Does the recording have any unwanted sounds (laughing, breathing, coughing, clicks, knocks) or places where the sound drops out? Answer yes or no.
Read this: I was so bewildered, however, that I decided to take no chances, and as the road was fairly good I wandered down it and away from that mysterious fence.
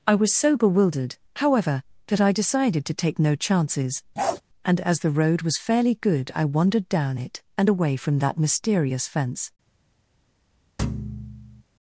yes